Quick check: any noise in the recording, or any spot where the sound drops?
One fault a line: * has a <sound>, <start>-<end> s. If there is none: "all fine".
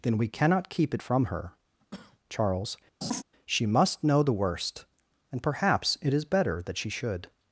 * has a cough, 1.8-2.2 s
* has a laugh, 3.0-3.2 s